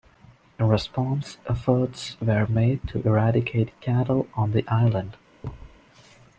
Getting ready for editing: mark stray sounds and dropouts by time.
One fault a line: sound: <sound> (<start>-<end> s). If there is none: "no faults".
sound: thud (5.4-5.8 s)